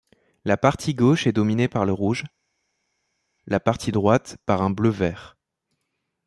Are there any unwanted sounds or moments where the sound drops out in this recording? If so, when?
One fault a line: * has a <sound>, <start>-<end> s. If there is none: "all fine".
all fine